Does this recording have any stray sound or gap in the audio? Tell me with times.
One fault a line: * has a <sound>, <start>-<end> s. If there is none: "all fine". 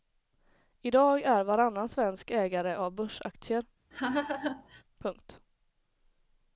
* has a laugh, 3.9-4.8 s